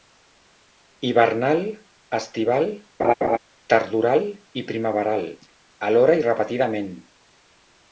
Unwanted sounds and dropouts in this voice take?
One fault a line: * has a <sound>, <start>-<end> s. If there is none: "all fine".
* has a laugh, 3.0-3.4 s